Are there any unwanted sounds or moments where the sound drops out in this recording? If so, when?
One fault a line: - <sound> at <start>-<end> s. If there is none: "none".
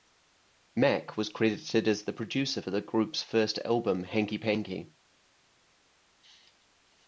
none